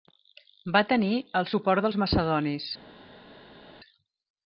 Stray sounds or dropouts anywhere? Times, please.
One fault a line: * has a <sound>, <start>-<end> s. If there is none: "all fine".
all fine